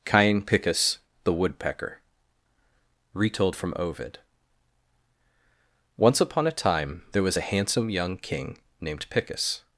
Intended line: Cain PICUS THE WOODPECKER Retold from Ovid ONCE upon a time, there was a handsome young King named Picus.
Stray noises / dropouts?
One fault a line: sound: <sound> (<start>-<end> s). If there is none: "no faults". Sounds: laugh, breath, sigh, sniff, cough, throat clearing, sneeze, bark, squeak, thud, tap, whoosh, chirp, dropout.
no faults